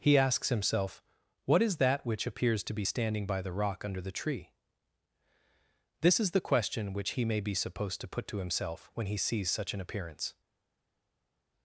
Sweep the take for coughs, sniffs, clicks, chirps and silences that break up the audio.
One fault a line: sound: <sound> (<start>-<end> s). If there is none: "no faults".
no faults